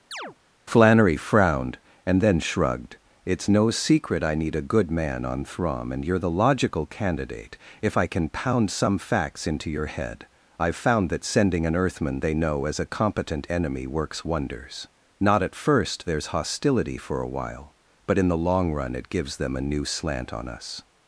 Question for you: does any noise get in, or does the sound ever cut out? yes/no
yes